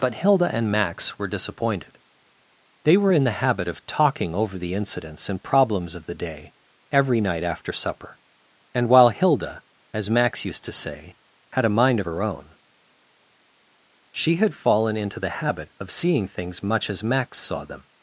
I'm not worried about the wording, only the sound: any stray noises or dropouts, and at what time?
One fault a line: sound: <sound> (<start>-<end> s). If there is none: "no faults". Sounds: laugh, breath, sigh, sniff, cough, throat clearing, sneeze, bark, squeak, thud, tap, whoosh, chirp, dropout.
no faults